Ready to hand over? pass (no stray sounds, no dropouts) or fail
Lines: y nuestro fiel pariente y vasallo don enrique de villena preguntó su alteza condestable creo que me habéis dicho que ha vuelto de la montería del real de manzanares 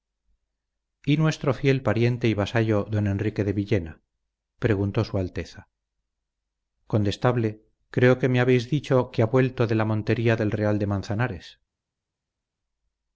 pass